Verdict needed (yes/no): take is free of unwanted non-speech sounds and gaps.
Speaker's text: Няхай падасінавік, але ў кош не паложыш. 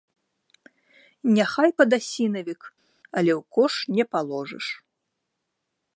yes